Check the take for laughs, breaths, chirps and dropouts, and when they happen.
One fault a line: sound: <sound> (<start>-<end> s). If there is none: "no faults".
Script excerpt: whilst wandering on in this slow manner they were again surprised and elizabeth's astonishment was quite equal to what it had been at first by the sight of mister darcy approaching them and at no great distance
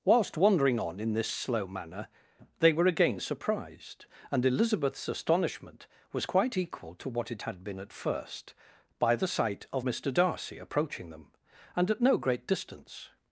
no faults